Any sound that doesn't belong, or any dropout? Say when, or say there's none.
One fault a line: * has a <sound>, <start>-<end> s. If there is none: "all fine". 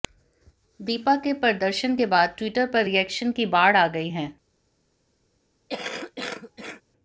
* has a cough, 5.7-6.8 s